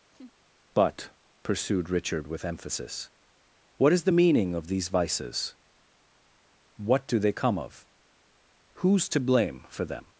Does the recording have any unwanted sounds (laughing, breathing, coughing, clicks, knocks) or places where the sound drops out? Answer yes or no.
yes